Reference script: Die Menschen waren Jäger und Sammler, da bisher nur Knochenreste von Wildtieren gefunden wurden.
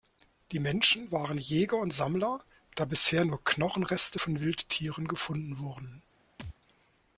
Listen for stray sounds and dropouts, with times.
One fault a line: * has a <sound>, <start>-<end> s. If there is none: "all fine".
* has a thud, 6.4-6.6 s